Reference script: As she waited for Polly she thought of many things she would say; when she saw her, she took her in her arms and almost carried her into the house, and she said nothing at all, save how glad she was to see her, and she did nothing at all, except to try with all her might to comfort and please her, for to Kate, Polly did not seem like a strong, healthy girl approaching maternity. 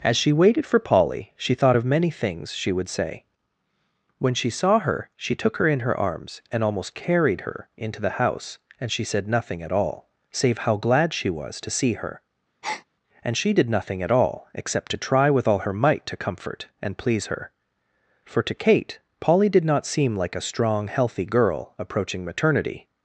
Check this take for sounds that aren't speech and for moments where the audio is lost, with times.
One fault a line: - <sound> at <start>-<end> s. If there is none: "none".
- breath at 12.6-12.9 s